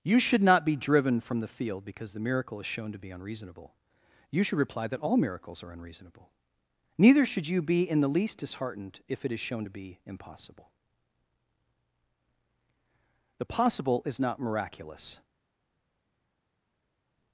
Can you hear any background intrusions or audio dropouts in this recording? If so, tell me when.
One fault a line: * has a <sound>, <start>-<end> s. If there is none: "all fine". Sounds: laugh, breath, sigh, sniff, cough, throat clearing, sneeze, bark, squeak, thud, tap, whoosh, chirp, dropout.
all fine